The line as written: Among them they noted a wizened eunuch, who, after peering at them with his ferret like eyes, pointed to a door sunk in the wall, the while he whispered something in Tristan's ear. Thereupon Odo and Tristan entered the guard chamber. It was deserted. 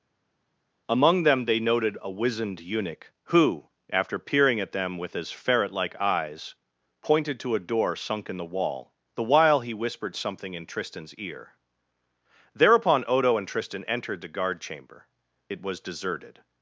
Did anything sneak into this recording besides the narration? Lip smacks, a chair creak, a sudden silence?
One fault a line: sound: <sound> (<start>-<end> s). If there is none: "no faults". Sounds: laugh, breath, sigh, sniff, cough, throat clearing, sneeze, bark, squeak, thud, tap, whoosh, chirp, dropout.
no faults